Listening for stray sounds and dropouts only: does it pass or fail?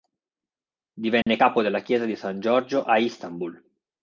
fail